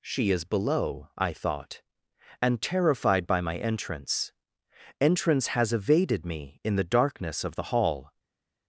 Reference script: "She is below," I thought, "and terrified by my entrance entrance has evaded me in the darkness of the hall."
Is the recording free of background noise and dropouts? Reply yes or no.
yes